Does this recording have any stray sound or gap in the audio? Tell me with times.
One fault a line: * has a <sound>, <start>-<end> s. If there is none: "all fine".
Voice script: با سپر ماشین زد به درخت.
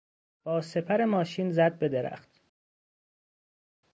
all fine